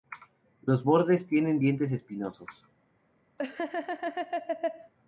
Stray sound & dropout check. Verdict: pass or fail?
fail